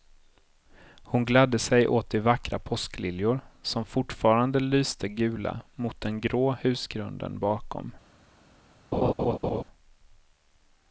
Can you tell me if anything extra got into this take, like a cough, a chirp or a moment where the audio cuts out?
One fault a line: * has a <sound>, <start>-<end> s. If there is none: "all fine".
* has a laugh, 8.9-9.6 s